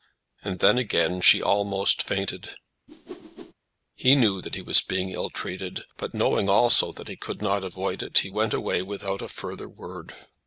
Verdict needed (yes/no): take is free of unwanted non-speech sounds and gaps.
no